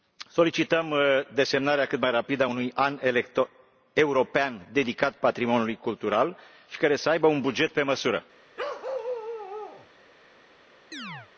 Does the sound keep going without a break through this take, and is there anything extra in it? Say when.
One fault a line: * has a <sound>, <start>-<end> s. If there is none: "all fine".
* has a bark, 8.6-9.9 s
* has a chirp, 10.9-11.3 s